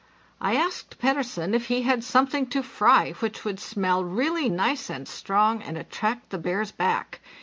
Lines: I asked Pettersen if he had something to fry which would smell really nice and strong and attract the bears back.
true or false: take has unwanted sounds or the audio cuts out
false